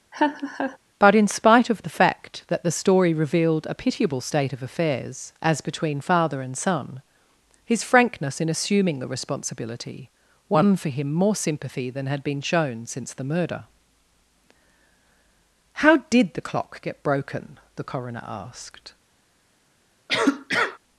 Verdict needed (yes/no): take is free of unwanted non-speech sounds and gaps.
no